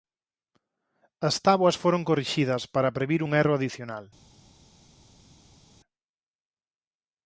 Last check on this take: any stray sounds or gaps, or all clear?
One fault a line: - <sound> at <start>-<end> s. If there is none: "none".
none